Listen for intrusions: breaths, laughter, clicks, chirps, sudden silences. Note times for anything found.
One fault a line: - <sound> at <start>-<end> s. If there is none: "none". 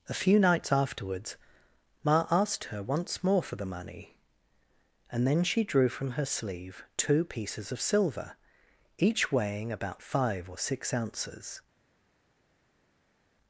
none